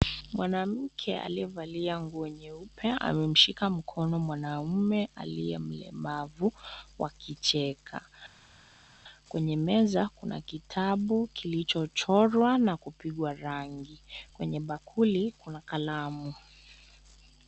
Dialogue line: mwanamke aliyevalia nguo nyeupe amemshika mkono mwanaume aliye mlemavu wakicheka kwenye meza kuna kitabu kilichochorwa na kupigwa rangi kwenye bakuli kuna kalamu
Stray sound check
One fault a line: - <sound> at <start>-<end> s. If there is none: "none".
none